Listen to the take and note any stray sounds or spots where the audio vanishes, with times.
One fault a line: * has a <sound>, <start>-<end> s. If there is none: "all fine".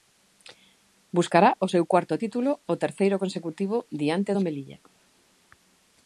all fine